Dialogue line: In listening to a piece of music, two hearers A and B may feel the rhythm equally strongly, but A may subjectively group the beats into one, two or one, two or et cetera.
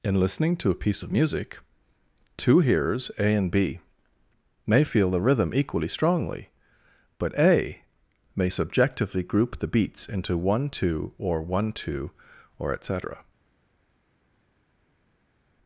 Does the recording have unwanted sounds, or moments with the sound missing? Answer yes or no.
no